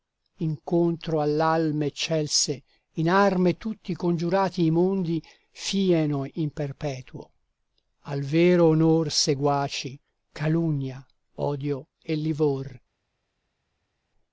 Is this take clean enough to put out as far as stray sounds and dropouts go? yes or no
yes